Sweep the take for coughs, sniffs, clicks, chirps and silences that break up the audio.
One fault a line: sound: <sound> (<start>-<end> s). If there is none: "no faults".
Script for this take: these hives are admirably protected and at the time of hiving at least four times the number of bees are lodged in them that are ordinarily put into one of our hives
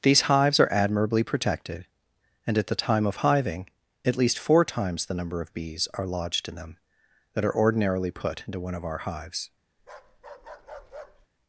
sound: bark (9.8-11.3 s)